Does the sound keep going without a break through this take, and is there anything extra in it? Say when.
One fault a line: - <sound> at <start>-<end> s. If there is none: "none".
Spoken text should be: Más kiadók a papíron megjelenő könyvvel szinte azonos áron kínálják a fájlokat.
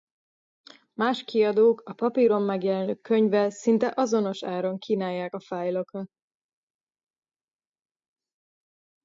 none